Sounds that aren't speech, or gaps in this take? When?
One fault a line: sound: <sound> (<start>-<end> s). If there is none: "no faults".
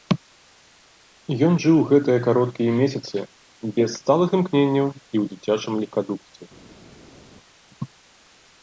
no faults